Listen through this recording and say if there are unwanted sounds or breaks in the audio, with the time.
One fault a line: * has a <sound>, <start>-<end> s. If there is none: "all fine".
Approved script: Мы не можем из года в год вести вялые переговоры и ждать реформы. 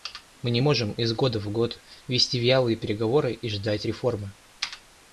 all fine